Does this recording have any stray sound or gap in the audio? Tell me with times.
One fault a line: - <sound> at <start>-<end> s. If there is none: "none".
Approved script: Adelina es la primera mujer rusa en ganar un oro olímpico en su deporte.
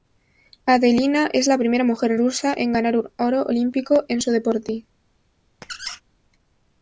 - squeak at 5.6-6.0 s